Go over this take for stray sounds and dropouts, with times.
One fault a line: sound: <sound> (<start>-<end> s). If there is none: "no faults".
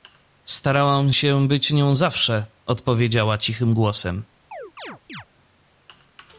sound: chirp (4.5-5.3 s)